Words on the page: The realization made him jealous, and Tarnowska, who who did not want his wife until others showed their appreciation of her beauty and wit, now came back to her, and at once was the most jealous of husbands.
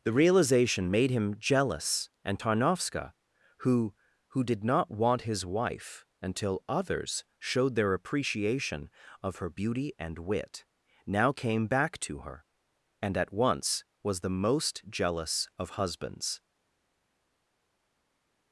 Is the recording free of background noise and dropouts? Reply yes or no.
yes